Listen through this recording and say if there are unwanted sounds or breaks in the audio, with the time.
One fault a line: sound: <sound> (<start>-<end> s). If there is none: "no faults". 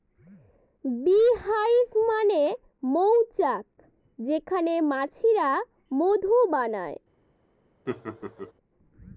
sound: laugh (7.9-8.5 s)